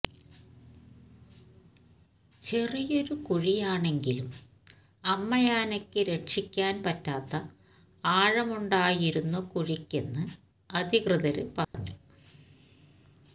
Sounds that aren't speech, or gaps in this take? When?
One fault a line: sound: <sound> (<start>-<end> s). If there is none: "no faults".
sound: dropout (11.6-11.7 s)